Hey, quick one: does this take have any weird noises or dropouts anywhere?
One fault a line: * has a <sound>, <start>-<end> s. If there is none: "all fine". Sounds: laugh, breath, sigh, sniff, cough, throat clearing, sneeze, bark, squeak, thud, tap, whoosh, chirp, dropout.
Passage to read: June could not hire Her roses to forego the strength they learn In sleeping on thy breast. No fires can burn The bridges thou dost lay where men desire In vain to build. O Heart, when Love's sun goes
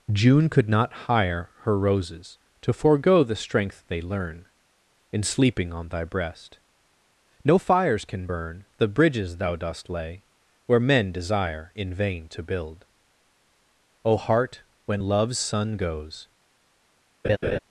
* has a laugh, 17.2-17.6 s